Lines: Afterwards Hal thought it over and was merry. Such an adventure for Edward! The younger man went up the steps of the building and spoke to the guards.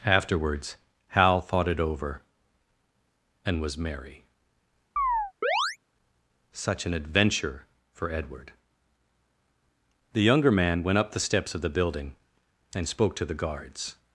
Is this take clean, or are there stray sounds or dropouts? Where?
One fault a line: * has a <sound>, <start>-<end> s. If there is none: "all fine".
* has a chirp, 5.0-5.8 s